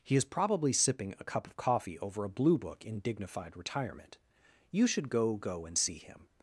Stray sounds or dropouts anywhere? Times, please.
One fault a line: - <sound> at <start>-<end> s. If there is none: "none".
none